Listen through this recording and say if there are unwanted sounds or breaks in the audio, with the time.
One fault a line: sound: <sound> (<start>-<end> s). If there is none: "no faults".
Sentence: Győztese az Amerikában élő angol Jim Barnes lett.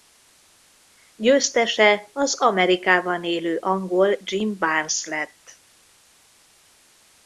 no faults